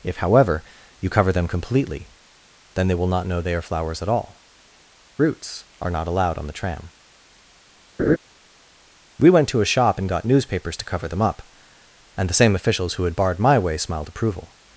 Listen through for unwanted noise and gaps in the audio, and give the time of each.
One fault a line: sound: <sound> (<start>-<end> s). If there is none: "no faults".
sound: laugh (8.0-8.2 s)